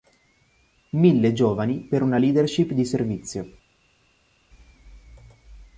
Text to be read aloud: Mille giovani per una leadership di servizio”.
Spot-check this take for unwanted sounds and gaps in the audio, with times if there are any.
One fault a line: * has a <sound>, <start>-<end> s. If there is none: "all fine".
all fine